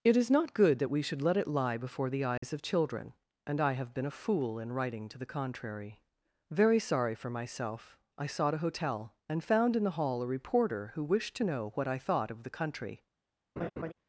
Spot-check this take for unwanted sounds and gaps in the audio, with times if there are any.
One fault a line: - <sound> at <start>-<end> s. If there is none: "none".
- dropout at 2.4-2.4 s
- laugh at 13.6-13.9 s